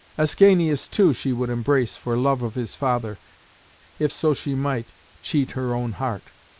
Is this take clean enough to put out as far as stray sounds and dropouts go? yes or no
yes